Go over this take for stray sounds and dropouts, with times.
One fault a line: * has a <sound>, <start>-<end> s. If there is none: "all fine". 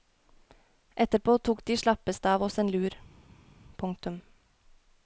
all fine